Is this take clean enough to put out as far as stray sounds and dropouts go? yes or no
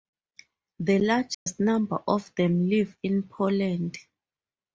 no